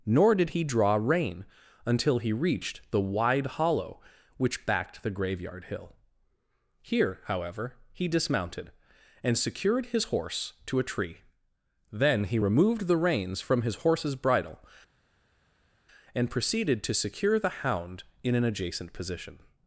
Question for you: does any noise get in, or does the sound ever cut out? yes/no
no